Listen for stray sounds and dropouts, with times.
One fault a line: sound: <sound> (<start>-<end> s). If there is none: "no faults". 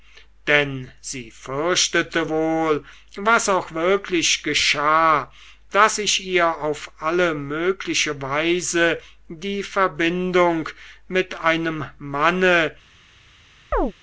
sound: chirp (13.7-13.9 s)